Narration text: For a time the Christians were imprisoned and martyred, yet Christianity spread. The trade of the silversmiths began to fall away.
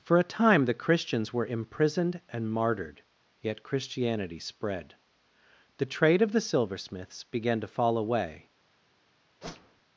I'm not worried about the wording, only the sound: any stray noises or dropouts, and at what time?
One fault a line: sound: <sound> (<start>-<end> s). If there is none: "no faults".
sound: whoosh (9.4-9.8 s)